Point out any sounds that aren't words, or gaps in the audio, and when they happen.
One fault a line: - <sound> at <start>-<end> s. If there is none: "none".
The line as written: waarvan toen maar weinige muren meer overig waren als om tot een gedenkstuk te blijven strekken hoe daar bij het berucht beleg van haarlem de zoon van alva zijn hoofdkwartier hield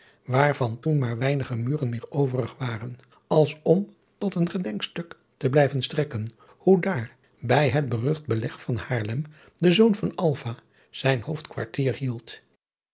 none